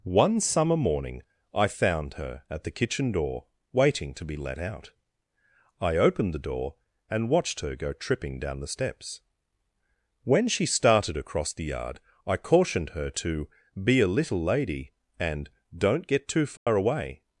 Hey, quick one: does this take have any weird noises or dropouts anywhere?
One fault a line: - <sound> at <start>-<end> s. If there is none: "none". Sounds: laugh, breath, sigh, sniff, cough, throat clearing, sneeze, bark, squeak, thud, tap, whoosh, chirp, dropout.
- dropout at 16.6-16.7 s